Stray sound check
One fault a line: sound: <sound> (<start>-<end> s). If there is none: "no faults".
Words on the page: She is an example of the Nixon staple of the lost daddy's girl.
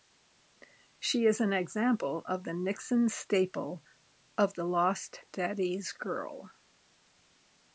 no faults